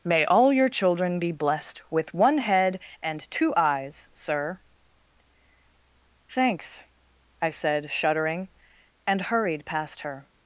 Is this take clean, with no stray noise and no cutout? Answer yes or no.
yes